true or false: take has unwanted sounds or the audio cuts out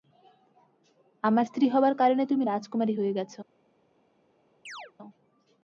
true